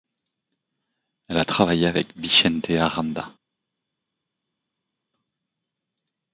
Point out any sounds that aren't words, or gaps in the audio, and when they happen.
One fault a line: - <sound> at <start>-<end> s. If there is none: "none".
none